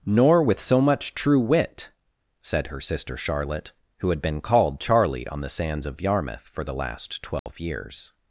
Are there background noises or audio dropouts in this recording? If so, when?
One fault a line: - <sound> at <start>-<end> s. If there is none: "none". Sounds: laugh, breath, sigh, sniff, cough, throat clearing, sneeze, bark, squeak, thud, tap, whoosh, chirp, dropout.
- dropout at 7.4-7.5 s